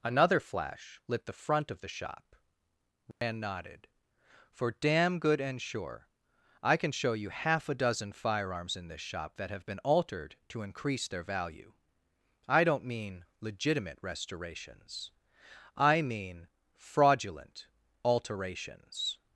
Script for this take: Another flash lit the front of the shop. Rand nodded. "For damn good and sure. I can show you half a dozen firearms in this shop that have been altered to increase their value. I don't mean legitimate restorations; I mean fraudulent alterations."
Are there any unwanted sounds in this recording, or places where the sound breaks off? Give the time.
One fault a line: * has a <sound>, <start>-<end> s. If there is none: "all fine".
* has a dropout, 3.1-3.2 s